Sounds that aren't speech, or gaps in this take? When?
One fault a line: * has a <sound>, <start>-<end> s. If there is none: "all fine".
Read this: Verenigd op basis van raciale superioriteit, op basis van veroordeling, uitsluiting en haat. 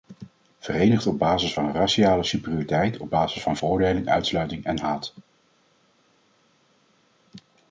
all fine